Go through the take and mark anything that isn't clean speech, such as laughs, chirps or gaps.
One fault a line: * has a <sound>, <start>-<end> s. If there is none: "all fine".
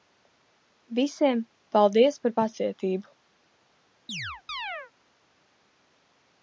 * has a chirp, 4.1-4.9 s